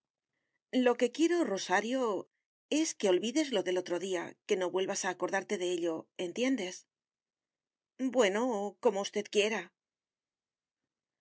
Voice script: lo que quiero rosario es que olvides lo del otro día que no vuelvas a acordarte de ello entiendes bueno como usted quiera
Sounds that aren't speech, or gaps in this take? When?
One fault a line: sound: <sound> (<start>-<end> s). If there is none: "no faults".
no faults